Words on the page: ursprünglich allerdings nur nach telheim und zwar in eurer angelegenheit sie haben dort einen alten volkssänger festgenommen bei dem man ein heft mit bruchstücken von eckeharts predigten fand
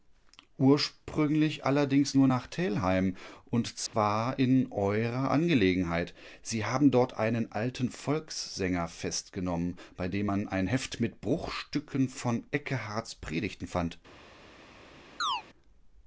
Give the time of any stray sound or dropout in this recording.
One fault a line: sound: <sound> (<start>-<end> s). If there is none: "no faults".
sound: dropout (3.9-3.9 s)
sound: chirp (15.2-15.4 s)